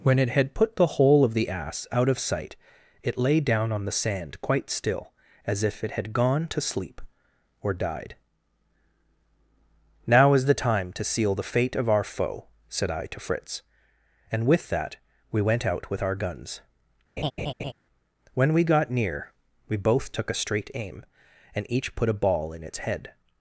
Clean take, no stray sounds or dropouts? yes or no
no